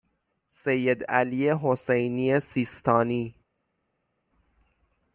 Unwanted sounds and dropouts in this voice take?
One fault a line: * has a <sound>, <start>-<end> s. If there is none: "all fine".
all fine